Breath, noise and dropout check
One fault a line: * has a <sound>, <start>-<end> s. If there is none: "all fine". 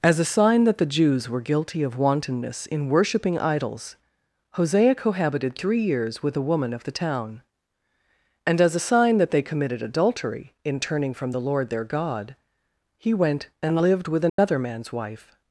* has a dropout, 14.3-14.4 s